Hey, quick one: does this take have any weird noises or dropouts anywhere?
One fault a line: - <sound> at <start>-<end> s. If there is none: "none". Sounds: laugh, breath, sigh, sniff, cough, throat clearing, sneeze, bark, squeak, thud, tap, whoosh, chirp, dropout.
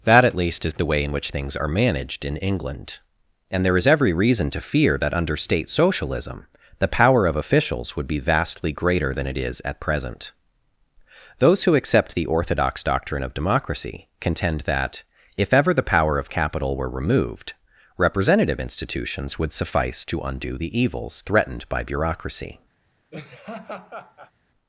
- laugh at 23.1-24.3 s